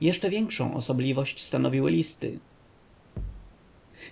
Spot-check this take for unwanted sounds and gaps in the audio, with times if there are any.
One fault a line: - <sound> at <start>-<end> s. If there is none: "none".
- thud at 3.2-3.5 s